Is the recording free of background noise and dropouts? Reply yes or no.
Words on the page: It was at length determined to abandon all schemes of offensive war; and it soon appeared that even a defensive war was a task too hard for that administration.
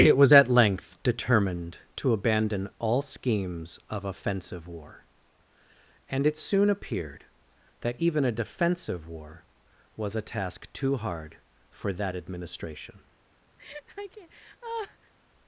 no